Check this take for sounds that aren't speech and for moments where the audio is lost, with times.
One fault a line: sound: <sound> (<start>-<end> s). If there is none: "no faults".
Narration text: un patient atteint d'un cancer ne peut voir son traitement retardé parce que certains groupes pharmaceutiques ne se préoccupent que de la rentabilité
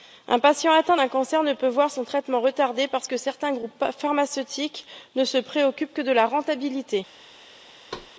sound: thud (7.9-8.1 s)